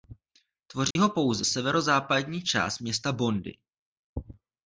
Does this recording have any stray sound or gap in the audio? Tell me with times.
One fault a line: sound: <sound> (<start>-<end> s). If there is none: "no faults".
sound: dropout (0.9-1.0 s)